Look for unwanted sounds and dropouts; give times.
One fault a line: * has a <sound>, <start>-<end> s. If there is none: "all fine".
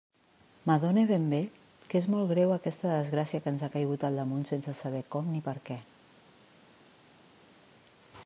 all fine